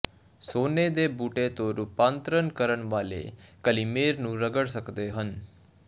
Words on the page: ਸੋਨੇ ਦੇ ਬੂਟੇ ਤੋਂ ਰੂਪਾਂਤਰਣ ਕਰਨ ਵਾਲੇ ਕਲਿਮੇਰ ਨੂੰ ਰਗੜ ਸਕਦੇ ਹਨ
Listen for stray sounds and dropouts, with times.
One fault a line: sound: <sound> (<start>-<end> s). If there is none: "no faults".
no faults